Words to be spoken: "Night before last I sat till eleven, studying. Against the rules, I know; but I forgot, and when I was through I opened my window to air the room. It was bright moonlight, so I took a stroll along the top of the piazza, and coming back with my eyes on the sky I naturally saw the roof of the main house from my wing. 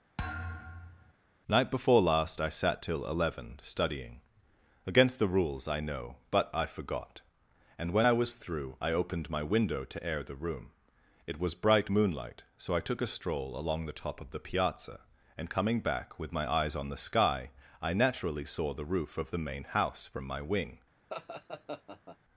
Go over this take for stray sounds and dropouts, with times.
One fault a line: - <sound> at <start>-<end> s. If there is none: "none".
- thud at 0.2-1.1 s
- laugh at 21.1-22.2 s